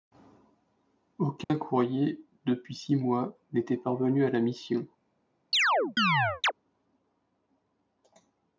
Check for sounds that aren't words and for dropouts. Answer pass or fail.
fail